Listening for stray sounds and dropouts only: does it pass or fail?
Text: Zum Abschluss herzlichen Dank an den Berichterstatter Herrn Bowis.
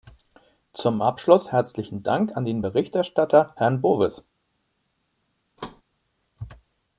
fail